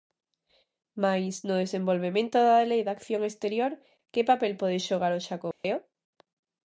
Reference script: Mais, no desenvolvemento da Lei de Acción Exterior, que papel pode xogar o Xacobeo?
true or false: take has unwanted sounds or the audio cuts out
true